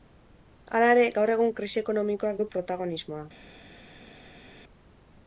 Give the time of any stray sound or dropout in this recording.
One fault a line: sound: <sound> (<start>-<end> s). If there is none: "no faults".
no faults